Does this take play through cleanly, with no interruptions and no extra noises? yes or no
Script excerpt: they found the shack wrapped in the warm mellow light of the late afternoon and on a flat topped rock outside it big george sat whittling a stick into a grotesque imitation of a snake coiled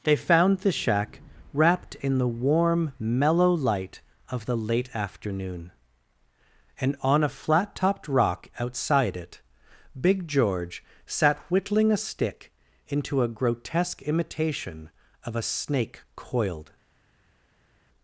yes